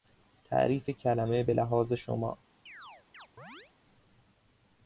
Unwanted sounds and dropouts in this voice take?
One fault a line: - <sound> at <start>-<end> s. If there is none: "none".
- chirp at 2.7-3.7 s